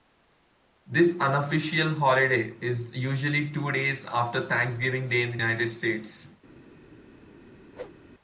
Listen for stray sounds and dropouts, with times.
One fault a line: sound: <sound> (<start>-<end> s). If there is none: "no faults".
sound: whoosh (7.7-8.0 s)